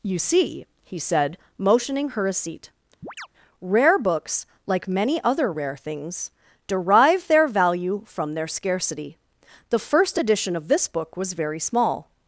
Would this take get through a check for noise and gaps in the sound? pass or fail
fail